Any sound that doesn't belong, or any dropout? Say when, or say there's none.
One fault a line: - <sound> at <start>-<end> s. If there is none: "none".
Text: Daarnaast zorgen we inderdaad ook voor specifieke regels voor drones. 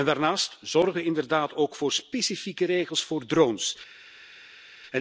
none